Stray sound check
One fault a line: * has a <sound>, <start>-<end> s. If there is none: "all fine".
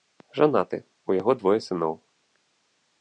all fine